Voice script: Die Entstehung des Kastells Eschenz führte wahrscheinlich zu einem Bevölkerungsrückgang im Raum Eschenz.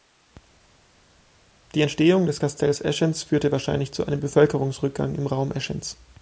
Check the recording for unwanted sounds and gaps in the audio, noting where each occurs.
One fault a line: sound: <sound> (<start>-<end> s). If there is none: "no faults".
no faults